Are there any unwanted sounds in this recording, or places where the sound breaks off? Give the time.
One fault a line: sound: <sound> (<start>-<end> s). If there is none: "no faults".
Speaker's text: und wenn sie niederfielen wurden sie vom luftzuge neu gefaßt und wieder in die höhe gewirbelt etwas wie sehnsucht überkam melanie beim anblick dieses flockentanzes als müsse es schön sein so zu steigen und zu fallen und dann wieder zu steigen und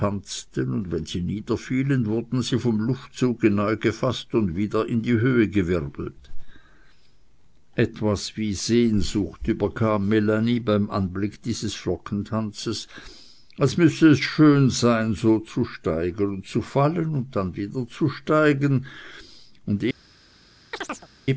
sound: chirp (20.7-21.1 s)